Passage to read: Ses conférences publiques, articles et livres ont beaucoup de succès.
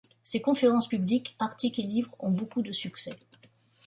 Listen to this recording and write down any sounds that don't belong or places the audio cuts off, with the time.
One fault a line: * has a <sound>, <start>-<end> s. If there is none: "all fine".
all fine